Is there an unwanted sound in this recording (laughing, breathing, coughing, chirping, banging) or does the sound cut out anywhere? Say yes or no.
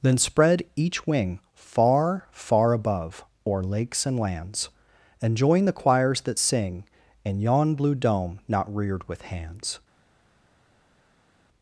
no